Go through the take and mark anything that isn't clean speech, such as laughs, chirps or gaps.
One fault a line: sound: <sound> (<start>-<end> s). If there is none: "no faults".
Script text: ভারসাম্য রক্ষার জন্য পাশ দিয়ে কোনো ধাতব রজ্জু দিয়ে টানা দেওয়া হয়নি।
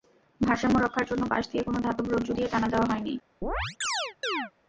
sound: chirp (3.4-4.5 s)